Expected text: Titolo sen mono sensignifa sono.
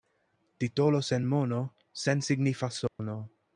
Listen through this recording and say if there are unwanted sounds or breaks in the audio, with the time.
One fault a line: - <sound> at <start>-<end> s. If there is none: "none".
- dropout at 2.9-3.0 s